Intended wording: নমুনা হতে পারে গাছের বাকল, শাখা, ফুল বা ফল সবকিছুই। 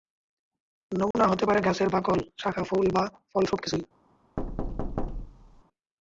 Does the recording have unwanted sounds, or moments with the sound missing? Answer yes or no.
yes